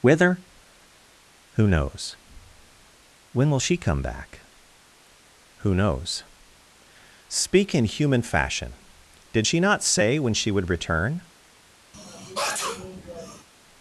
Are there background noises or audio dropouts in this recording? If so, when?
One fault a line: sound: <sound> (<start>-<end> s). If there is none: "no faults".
sound: sneeze (11.9-13.5 s)